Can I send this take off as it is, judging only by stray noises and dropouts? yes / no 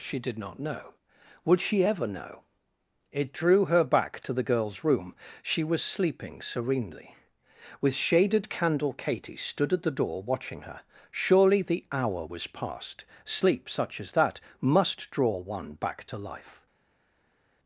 yes